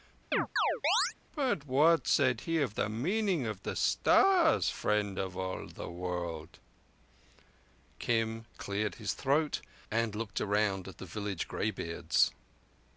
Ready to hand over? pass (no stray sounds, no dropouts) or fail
fail